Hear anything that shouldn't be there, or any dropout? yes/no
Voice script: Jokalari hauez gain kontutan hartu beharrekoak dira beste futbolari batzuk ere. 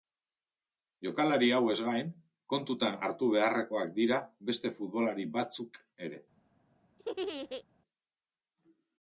yes